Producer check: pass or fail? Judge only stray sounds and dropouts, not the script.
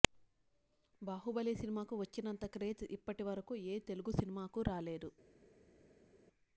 pass